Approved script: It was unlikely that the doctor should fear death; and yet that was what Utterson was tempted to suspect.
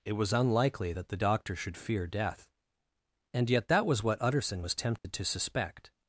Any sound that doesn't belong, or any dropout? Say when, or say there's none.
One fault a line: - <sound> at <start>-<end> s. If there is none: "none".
- dropout at 5.0-5.0 s